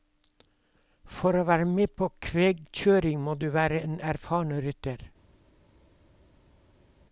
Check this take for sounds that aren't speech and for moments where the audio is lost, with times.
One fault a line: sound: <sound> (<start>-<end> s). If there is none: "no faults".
no faults